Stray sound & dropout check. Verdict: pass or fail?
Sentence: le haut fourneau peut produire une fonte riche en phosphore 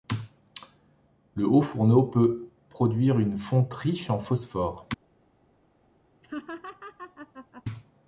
fail